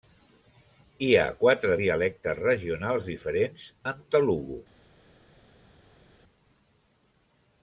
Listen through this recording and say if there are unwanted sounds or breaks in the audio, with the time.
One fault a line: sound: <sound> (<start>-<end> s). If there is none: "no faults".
no faults